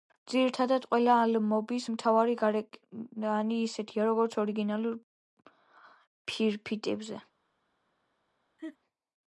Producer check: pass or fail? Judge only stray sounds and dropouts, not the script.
fail